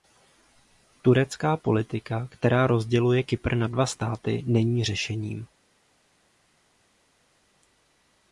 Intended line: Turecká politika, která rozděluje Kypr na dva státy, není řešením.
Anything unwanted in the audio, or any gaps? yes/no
no